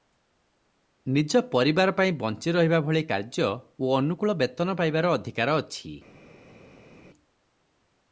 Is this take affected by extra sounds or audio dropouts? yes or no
no